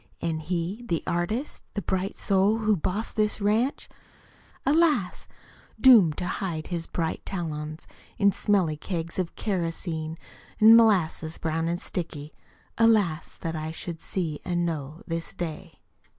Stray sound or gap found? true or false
false